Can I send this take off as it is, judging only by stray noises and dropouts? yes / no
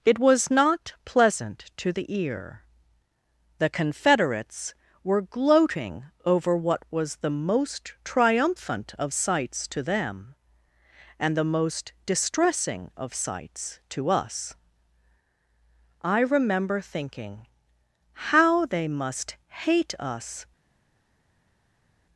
yes